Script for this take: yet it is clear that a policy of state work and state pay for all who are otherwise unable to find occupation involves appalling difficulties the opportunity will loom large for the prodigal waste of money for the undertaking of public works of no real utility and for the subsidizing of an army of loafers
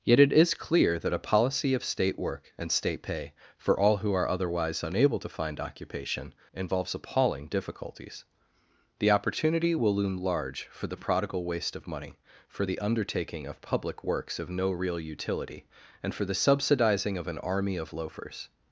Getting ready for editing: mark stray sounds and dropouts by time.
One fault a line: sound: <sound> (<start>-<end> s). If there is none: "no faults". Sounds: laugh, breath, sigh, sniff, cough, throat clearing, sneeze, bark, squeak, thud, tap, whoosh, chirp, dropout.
no faults